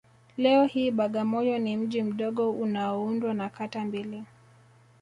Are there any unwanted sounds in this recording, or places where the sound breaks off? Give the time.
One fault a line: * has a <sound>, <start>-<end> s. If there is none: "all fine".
all fine